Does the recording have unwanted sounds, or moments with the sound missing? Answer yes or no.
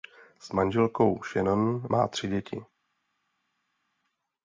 no